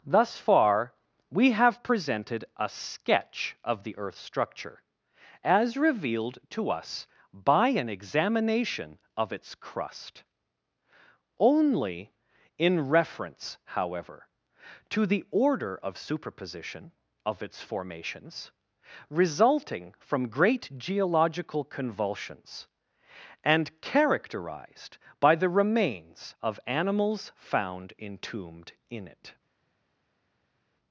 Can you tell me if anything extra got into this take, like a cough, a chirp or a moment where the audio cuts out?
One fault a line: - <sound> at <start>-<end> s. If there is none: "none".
none